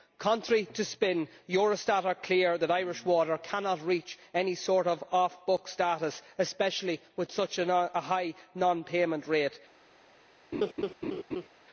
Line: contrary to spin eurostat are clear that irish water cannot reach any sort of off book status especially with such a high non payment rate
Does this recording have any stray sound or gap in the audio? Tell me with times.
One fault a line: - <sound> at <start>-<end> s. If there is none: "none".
- laugh at 10.5-11.5 s